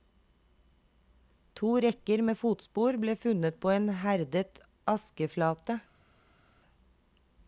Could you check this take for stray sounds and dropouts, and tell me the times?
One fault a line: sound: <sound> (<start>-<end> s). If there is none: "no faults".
no faults